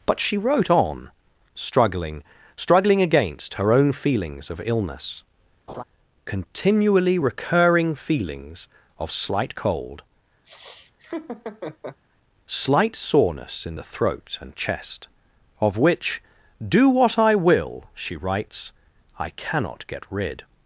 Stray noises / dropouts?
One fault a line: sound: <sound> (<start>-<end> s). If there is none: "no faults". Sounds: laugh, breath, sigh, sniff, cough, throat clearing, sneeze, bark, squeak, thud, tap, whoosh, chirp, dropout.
sound: laugh (5.7-5.8 s)
sound: laugh (10.4-12.0 s)